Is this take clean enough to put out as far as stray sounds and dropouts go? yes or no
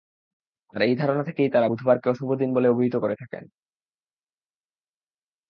yes